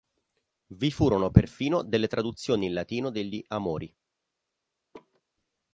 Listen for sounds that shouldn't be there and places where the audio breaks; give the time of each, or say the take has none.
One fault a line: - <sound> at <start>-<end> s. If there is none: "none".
- laugh at 4.9-5.2 s